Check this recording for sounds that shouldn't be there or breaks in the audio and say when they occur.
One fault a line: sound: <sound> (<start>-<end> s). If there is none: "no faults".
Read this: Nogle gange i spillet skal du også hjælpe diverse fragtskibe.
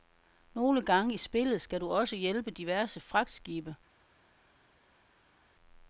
no faults